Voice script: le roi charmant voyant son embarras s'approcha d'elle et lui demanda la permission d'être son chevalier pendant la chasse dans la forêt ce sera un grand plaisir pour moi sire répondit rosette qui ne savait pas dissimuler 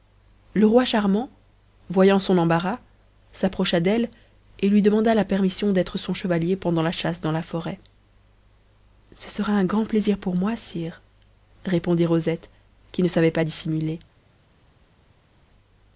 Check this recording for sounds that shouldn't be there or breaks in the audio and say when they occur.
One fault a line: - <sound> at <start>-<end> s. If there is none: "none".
none